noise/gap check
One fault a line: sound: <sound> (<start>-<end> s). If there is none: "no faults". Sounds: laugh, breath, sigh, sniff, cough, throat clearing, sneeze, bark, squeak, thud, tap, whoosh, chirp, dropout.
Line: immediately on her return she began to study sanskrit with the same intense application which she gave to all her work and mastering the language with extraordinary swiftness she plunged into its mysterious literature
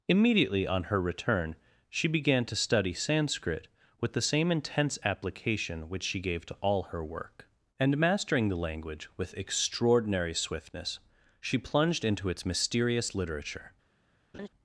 sound: laugh (14.3-14.5 s)